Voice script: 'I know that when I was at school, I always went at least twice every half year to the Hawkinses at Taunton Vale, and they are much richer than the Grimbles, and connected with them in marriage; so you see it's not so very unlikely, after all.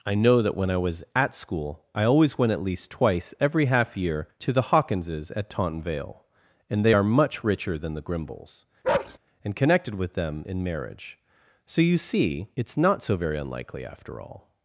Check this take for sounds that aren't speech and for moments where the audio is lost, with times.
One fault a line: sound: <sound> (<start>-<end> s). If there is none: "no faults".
sound: bark (8.8-9.2 s)